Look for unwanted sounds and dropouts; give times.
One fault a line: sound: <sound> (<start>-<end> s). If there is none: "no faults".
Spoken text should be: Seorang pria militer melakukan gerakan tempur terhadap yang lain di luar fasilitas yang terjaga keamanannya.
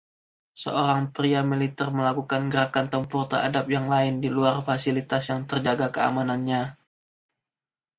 no faults